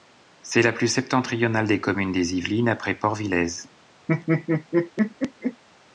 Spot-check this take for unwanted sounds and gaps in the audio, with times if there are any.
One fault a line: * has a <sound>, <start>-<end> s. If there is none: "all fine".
* has a laugh, 4.1-5.6 s